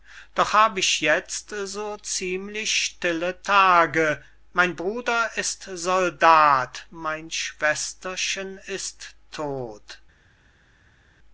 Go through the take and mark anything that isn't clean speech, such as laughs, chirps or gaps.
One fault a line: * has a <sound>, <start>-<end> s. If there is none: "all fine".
all fine